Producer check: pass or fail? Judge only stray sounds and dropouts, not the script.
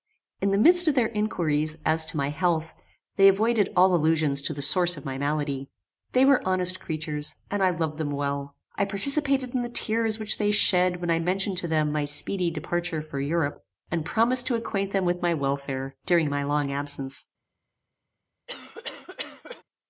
fail